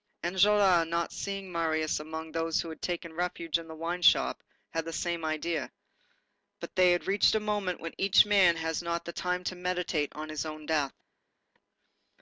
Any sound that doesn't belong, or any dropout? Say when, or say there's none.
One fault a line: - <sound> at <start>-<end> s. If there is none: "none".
none